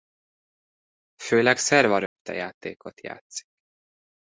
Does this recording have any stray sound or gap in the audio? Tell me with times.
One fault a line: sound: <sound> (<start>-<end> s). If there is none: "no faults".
sound: dropout (2.1-2.2 s)